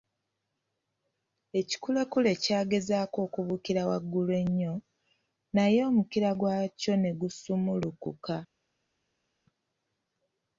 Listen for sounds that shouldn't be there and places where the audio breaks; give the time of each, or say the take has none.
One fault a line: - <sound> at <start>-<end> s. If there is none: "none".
none